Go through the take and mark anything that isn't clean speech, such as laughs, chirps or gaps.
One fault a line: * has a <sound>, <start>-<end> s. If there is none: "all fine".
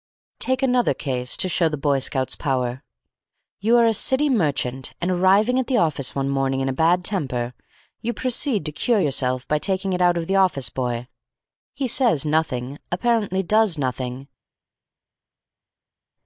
all fine